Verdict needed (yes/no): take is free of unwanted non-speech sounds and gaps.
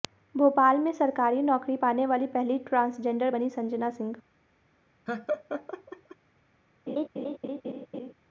no